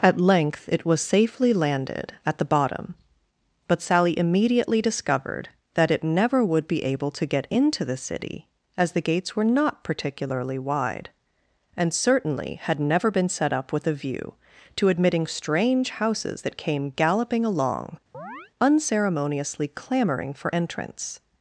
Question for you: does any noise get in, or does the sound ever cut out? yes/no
yes